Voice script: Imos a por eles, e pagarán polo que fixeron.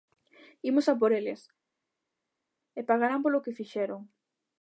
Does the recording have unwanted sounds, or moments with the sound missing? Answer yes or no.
no